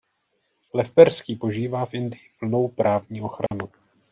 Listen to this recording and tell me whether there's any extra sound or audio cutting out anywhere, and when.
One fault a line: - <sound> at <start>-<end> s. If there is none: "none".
- dropout at 3.5-3.5 s